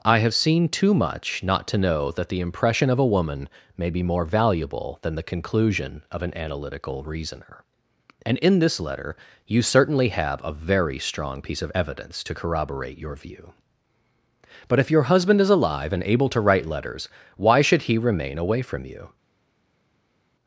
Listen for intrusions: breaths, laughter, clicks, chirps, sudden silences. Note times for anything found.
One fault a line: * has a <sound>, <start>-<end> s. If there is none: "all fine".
all fine